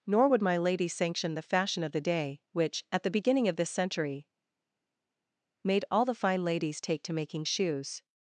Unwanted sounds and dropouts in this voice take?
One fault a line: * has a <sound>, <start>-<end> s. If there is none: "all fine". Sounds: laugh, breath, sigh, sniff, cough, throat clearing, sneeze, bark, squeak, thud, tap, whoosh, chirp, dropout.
all fine